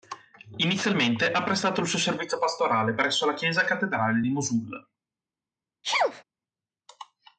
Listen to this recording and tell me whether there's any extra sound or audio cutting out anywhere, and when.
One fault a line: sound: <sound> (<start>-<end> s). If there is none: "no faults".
sound: sneeze (5.8-6.2 s)